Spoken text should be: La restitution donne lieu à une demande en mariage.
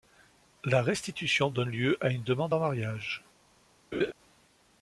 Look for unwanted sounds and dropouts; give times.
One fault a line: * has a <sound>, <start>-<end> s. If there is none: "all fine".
* has a laugh, 3.9-4.1 s